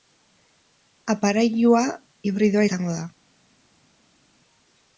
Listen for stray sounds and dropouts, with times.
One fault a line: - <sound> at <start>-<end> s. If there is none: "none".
none